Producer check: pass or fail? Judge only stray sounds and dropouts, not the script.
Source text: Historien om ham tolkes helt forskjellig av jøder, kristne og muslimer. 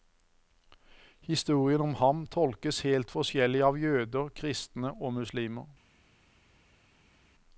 pass